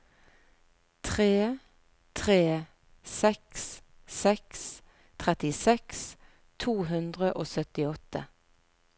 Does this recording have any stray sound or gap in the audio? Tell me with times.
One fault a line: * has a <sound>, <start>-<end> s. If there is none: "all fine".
all fine